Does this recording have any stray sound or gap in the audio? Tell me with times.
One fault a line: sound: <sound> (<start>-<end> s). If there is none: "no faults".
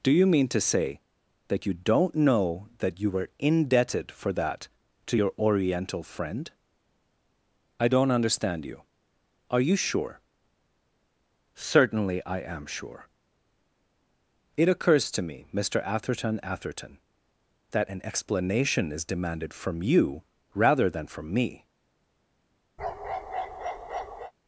sound: bark (22.8-24.3 s)